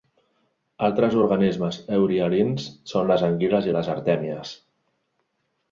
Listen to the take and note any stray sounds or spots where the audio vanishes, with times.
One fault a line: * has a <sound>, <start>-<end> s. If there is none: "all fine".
all fine